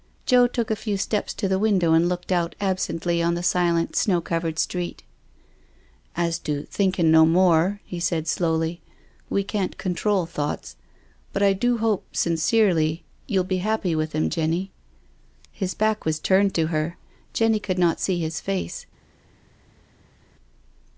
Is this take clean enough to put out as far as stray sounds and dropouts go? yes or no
yes